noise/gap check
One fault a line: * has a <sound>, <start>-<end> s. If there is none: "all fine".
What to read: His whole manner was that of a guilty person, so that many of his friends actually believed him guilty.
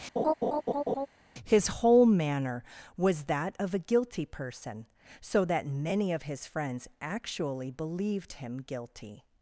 * has a laugh, 0.2-1.1 s